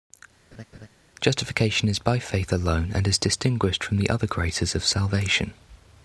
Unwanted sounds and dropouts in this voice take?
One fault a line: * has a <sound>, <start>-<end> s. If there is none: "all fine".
* has a laugh, 0.5-0.9 s